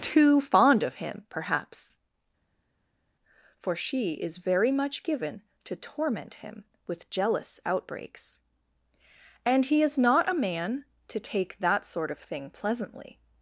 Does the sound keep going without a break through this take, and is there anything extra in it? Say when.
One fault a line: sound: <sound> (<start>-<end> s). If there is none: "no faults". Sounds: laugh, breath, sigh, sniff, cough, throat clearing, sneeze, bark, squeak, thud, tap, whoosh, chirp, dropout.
no faults